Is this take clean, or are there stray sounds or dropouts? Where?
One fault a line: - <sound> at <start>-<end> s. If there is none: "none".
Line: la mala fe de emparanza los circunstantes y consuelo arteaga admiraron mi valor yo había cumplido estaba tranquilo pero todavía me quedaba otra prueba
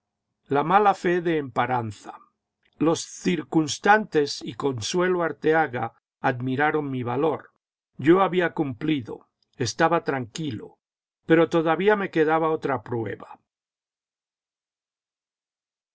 none